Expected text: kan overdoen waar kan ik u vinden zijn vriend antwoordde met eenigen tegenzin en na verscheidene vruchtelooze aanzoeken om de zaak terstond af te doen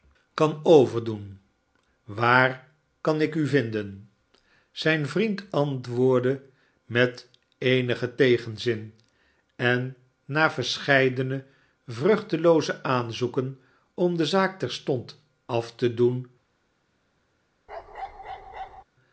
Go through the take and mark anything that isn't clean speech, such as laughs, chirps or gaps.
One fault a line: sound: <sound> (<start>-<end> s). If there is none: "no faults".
sound: bark (17.7-18.8 s)